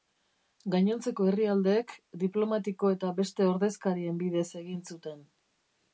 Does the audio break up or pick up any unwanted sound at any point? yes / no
no